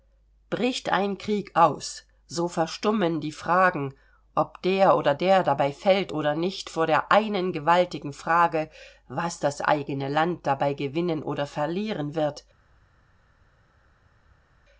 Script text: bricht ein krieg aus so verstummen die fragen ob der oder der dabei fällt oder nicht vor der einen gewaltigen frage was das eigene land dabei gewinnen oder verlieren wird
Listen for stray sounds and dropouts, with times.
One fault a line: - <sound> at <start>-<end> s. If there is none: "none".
none